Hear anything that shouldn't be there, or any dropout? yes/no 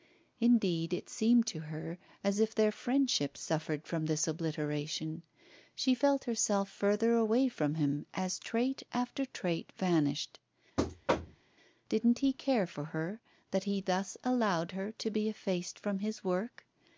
yes